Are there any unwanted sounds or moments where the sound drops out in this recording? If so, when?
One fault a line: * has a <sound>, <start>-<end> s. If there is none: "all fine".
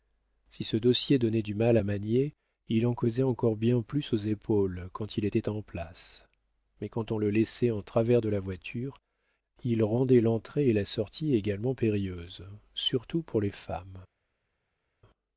all fine